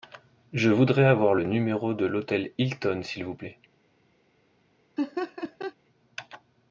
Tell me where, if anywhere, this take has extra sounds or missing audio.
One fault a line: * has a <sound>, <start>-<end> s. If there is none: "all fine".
* has a laugh, 5.0-5.7 s